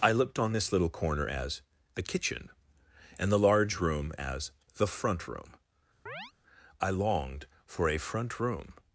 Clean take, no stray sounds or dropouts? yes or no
no